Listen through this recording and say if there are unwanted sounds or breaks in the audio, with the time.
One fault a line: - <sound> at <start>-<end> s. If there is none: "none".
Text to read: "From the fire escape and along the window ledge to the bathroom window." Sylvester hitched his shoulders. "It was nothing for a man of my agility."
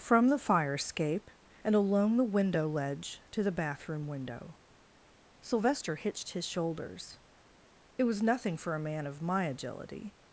none